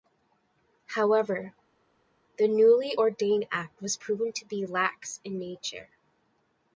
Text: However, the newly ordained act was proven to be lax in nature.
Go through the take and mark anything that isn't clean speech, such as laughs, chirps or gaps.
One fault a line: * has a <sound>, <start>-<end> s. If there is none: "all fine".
all fine